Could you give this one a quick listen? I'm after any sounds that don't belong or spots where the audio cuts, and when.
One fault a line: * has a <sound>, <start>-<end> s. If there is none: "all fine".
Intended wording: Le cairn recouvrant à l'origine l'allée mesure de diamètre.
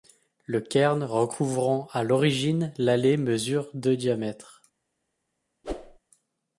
* has a whoosh, 5.6-6.0 s